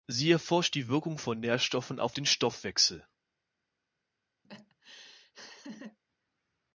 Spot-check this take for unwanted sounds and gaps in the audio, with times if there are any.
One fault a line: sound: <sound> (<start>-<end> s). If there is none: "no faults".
sound: laugh (4.4-6.0 s)